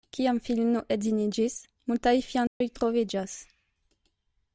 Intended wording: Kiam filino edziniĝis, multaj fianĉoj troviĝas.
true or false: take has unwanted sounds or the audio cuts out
true